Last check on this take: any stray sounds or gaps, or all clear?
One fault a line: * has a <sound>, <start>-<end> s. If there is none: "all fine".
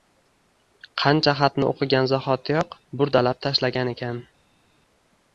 all fine